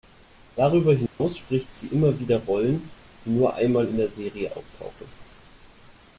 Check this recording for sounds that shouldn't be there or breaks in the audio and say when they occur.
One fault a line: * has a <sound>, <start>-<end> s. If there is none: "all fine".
* has a dropout, 1.1-1.2 s